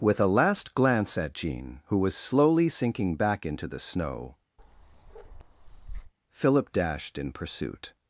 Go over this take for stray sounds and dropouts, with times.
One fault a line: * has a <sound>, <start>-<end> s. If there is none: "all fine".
* has a bark, 4.6-6.1 s